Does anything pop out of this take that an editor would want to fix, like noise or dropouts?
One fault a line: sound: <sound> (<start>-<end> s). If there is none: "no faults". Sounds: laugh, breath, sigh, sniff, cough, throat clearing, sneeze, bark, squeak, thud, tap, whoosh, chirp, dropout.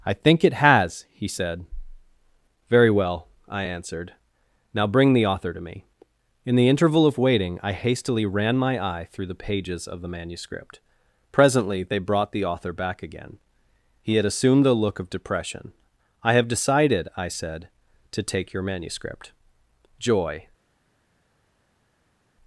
no faults